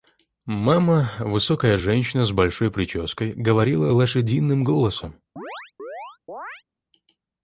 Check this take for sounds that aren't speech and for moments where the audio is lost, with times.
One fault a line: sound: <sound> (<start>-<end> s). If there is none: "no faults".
sound: chirp (5.4-6.6 s)